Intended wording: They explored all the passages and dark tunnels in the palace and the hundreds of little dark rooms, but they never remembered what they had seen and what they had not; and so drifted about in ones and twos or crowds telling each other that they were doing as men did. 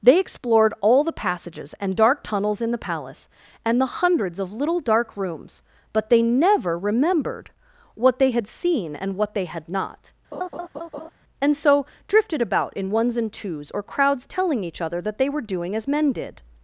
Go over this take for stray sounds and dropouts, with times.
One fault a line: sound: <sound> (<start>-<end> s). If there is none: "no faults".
sound: laugh (10.3-11.1 s)